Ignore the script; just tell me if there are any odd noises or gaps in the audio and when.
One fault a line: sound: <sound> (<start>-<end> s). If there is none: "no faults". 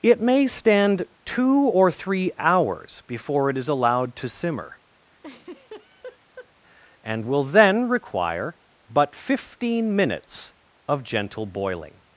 sound: laugh (5.2-6.5 s)